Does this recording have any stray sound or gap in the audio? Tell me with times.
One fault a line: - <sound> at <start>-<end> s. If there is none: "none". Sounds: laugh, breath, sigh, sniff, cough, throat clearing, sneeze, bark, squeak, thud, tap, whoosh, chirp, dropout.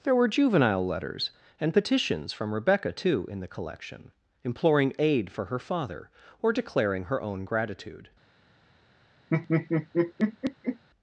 - laugh at 9.3-10.8 s